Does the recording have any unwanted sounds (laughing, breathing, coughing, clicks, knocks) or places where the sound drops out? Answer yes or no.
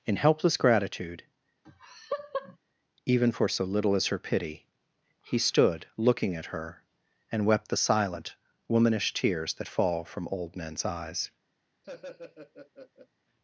yes